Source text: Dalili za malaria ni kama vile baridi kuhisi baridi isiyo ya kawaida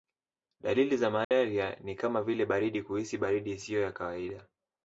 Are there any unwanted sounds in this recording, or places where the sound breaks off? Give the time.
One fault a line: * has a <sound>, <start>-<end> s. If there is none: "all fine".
* has a dropout, 1.2-1.3 s